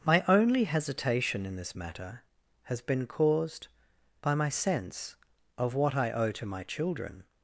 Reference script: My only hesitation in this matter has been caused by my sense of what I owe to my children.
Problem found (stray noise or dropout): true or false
false